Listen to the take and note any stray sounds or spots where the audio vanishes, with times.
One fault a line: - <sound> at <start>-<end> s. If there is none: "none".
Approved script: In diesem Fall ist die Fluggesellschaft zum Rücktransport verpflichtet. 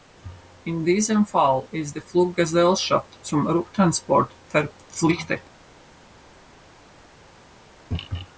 none